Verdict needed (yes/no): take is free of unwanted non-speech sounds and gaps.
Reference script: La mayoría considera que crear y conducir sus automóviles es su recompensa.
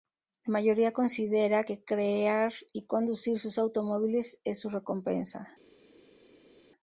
yes